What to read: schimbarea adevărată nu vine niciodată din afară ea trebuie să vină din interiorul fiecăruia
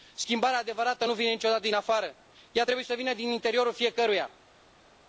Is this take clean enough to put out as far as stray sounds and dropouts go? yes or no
yes